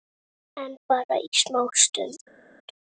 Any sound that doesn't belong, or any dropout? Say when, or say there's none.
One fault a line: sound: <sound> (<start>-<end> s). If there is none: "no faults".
no faults